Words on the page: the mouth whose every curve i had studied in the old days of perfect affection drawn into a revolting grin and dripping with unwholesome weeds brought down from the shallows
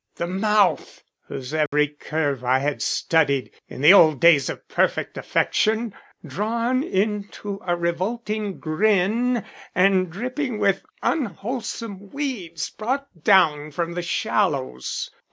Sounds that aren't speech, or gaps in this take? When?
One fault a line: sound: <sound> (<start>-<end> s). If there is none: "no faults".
sound: dropout (1.7-1.7 s)